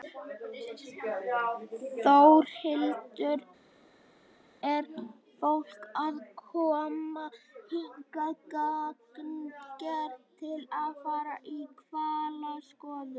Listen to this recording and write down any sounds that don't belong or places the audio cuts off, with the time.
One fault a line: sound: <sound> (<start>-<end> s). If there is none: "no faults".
no faults